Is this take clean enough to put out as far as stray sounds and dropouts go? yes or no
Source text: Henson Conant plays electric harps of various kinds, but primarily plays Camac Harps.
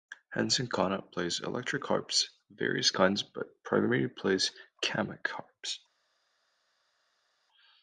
yes